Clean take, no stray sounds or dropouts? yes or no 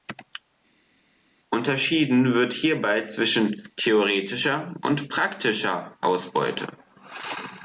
yes